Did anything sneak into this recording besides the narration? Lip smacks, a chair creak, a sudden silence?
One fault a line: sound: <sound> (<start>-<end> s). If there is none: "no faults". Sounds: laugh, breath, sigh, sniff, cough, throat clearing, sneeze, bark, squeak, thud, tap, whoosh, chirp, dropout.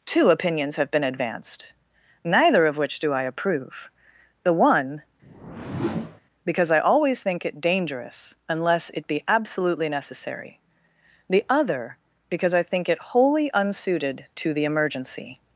sound: whoosh (5.2-6.2 s)